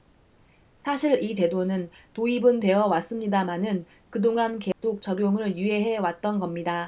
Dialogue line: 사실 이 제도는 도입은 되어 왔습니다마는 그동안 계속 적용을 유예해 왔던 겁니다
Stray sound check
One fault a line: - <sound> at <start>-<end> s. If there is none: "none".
- dropout at 4.7-4.8 s